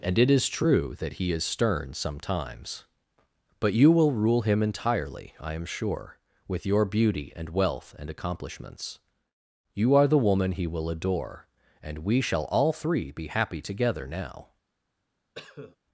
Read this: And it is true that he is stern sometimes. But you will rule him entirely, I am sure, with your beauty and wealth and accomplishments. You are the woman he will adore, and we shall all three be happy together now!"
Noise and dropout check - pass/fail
fail